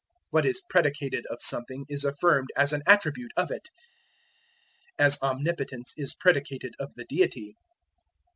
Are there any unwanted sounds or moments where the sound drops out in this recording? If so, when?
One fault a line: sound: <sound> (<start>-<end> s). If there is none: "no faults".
no faults